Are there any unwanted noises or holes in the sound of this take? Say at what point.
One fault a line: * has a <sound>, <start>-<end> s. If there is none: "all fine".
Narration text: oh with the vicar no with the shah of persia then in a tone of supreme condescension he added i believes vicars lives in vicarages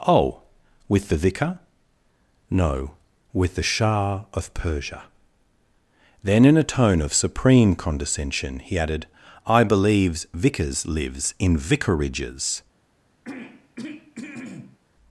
* has a throat clearing, 13.2-14.8 s